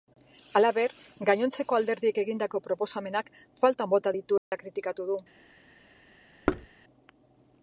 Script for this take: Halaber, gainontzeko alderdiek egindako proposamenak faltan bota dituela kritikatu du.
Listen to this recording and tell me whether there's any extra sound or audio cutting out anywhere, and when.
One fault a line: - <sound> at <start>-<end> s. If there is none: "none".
- dropout at 4.4-4.5 s
- thud at 6.5-6.7 s